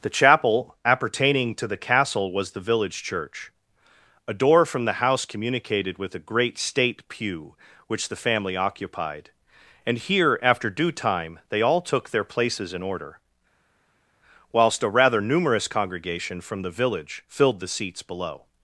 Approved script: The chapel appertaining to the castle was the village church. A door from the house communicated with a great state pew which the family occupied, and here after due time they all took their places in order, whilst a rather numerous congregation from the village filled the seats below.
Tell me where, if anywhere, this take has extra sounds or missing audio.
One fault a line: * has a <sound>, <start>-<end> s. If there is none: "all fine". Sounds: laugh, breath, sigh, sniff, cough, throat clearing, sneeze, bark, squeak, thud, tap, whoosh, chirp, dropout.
all fine